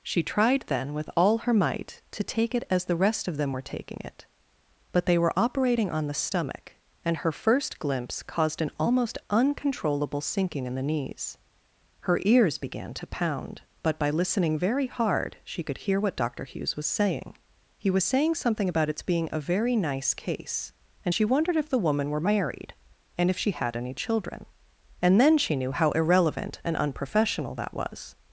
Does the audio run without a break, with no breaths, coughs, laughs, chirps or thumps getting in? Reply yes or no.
yes